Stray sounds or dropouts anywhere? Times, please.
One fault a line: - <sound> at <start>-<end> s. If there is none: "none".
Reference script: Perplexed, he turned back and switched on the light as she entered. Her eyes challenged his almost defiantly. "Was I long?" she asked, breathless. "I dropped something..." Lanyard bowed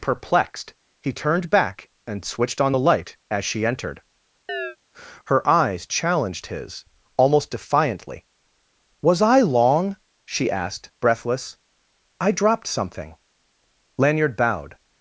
- chirp at 4.5-4.8 s